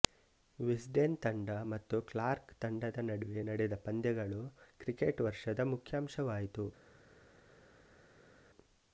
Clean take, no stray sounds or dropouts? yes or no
yes